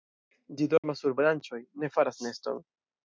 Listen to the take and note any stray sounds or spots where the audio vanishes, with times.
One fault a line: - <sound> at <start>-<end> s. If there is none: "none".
- dropout at 0.8-0.8 s